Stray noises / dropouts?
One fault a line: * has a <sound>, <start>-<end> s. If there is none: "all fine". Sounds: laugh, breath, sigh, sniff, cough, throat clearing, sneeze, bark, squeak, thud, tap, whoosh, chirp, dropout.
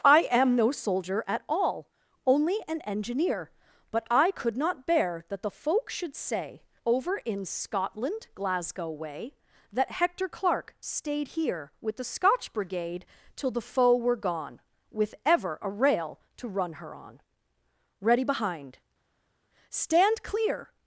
all fine